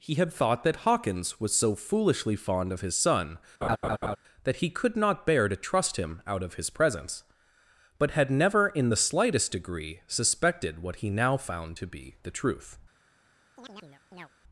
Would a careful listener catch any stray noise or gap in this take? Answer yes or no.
yes